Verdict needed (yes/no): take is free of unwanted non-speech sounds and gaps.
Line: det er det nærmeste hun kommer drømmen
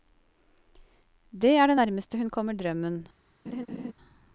no